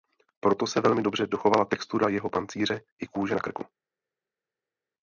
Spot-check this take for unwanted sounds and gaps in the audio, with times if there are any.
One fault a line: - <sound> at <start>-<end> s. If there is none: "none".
none